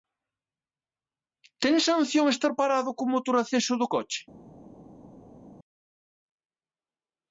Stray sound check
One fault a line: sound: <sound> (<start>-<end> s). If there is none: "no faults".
no faults